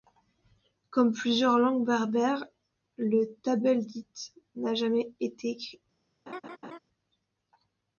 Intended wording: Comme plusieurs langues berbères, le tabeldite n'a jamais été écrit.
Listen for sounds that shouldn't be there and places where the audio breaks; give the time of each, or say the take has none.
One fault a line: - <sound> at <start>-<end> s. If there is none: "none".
- laugh at 6.3-6.8 s